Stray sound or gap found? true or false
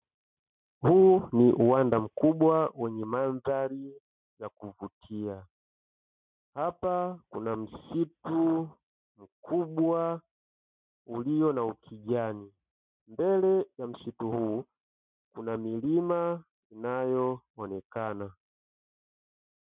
false